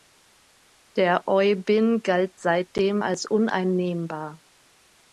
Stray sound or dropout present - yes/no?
no